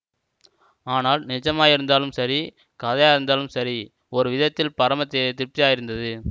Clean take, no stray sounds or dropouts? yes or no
yes